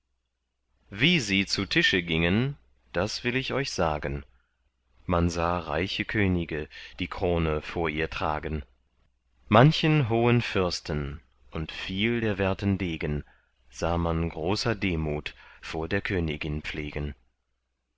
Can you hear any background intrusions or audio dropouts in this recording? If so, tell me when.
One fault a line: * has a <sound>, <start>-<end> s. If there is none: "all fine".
all fine